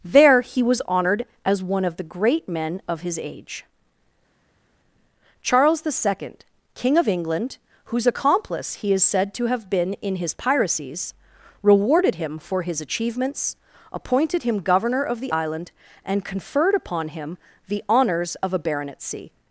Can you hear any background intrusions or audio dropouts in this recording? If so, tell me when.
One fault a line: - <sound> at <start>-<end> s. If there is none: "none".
none